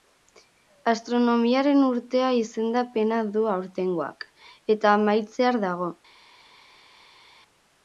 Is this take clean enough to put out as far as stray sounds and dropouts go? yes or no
yes